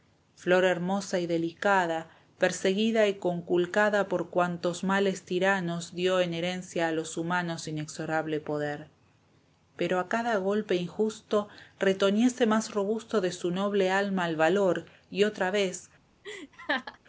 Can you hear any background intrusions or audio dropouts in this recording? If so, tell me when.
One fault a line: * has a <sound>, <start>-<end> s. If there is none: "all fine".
* has a laugh, 16.2-17.0 s